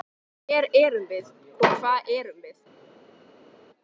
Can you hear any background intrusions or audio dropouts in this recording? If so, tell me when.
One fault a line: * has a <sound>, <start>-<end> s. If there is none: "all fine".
all fine